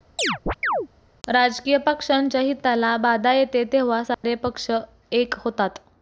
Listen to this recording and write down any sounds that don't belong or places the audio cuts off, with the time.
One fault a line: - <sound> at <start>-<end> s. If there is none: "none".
- chirp at 0.2-0.9 s
- dropout at 4.1-4.2 s